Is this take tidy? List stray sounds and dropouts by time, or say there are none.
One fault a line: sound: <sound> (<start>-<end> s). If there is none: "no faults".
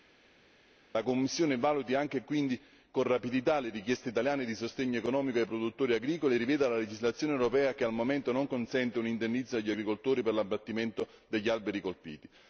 no faults